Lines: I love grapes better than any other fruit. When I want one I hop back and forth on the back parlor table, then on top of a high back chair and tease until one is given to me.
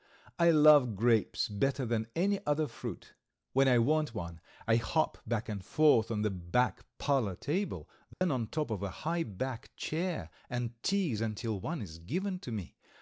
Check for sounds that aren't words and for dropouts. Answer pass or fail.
fail